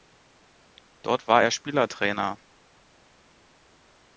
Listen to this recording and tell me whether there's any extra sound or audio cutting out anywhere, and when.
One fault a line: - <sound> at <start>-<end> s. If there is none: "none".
none